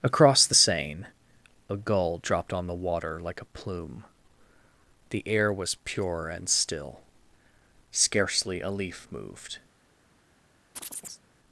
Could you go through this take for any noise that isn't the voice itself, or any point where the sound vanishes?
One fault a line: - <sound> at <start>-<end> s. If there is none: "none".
- chirp at 10.8-11.2 s